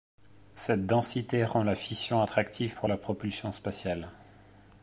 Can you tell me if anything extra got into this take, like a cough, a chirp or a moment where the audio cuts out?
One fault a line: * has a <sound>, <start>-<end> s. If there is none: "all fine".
all fine